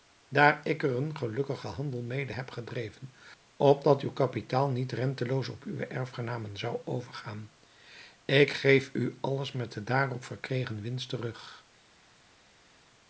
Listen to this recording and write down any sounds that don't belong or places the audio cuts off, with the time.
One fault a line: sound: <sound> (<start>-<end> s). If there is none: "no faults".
no faults